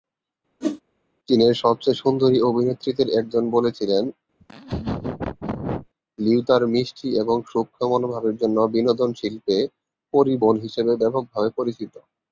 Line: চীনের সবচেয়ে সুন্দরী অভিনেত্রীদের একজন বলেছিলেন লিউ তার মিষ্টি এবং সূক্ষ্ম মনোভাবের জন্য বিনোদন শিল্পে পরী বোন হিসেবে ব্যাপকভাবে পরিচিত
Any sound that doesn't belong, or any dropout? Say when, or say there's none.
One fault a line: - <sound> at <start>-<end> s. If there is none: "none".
- whoosh at 0.6-0.8 s
- laugh at 4.4-5.9 s